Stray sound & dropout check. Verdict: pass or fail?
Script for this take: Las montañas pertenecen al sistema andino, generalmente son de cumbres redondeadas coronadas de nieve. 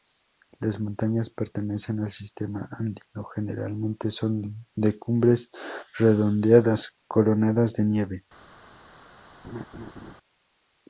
fail